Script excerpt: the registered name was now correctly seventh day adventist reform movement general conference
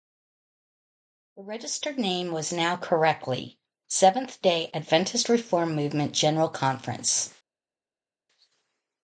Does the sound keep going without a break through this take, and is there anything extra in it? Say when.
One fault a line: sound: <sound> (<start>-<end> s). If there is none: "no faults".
no faults